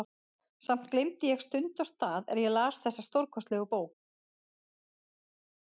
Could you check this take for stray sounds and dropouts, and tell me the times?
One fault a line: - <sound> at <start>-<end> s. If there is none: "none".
none